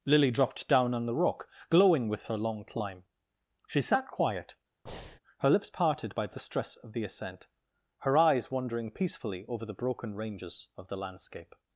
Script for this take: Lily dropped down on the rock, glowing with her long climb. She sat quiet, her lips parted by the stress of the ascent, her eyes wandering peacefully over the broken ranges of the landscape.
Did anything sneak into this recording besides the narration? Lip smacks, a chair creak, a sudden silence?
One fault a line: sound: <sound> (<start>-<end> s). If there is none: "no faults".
sound: breath (4.9-5.2 s)